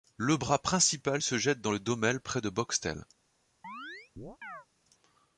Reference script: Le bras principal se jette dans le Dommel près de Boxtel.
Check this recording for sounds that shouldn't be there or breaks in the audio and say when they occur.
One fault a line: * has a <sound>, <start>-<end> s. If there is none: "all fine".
* has a chirp, 3.6-4.7 s